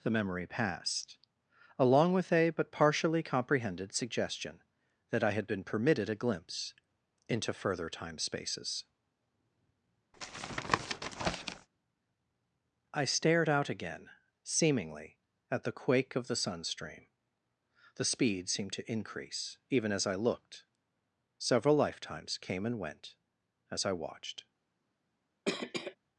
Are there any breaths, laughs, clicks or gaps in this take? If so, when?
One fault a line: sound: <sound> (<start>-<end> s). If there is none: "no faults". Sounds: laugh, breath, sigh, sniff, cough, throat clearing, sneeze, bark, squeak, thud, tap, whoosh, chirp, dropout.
sound: tap (10.1-11.7 s)
sound: cough (25.5-26.0 s)